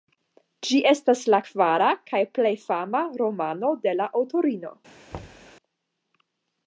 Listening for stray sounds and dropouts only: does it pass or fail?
fail